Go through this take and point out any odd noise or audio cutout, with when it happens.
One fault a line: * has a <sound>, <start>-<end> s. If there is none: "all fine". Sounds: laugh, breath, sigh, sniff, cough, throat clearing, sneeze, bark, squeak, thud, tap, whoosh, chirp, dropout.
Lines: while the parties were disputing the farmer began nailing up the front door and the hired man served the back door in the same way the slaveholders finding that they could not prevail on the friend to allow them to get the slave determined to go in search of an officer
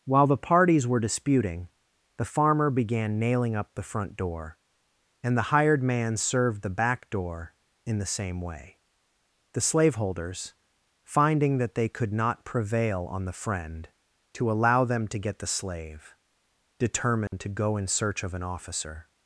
* has a dropout, 17.3-17.3 s